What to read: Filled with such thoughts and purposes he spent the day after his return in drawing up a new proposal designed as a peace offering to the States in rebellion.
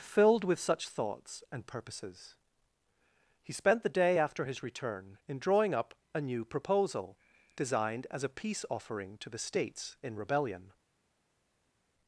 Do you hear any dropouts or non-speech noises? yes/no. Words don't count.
no